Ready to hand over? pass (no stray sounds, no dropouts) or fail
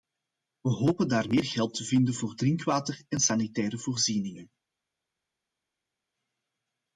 pass